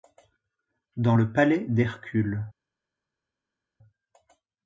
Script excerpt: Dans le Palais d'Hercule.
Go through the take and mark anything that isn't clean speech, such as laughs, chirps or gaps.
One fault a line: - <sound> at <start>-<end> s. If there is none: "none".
none